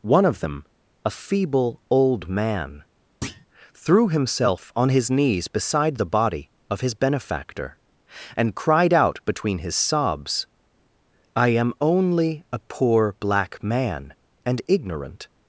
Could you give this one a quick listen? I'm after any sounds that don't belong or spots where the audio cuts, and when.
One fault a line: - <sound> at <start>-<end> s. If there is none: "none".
- thud at 3.2-3.5 s